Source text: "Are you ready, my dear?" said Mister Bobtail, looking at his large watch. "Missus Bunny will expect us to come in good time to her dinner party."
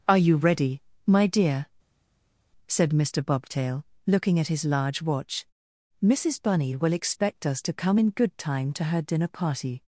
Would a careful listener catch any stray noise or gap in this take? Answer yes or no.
no